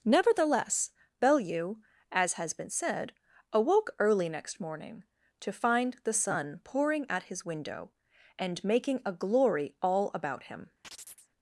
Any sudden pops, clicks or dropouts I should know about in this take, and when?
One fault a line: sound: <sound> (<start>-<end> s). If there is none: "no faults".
sound: chirp (10.8-11.3 s)